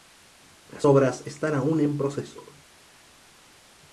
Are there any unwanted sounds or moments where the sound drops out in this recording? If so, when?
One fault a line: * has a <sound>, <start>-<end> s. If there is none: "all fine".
all fine